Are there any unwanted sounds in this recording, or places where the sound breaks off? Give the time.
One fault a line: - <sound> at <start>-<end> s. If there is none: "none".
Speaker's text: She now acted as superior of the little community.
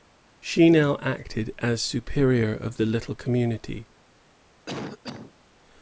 - cough at 4.7-5.3 s